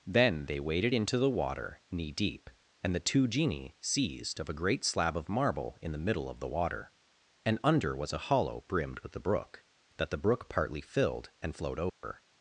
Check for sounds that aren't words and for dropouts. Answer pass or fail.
fail